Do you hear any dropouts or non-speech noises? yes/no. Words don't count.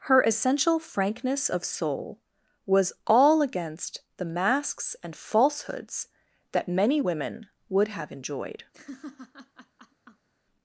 yes